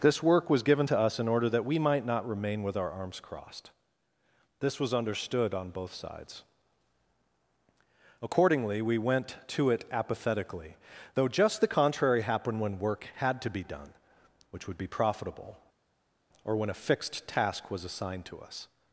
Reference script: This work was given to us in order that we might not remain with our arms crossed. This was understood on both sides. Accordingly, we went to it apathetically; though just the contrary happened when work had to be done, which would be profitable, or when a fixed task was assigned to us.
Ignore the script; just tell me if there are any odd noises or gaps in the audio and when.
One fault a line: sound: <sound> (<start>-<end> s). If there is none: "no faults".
no faults